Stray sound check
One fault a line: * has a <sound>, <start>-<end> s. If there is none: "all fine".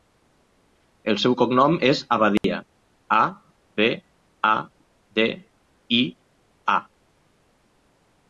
* has a dropout, 2.4-2.4 s